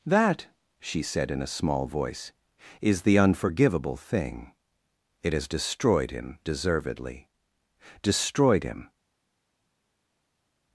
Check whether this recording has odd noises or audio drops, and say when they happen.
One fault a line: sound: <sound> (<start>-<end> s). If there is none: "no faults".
no faults